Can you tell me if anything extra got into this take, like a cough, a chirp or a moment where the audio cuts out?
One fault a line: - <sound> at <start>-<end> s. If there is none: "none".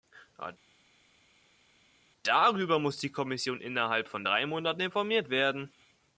none